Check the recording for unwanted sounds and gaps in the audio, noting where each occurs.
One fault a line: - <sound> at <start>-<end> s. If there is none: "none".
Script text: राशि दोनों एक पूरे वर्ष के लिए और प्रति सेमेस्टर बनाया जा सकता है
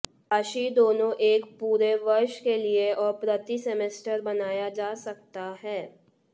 none